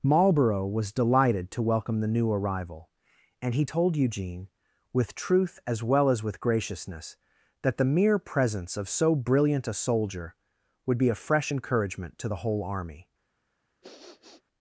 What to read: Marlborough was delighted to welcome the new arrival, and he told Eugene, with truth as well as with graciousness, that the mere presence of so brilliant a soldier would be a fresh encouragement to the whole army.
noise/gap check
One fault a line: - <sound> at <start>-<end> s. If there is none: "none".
- sniff at 13.8-14.4 s